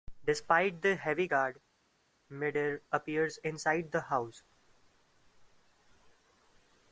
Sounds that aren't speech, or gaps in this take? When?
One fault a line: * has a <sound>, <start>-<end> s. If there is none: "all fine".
all fine